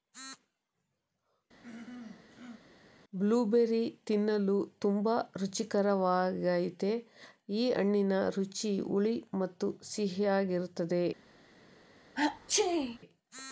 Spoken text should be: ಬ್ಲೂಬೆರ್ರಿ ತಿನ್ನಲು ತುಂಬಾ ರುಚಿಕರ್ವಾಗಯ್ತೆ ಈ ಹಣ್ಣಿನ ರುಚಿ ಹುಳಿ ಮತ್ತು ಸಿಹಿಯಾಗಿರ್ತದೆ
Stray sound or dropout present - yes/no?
yes